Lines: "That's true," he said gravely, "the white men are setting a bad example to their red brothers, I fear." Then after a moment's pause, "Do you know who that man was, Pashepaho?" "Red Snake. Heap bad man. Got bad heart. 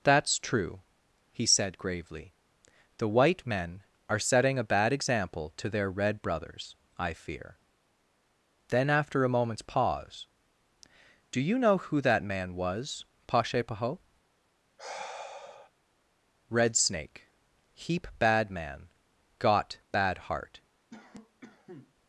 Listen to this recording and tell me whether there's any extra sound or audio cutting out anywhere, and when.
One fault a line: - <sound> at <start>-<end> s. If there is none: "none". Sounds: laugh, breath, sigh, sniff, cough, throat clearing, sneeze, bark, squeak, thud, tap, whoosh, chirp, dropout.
- sigh at 14.8-15.7 s
- cough at 20.9-21.9 s